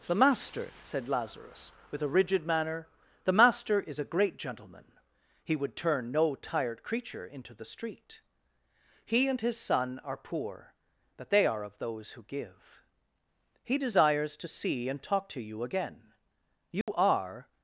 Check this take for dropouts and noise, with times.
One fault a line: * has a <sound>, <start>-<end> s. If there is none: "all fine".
* has a dropout, 16.8-16.9 s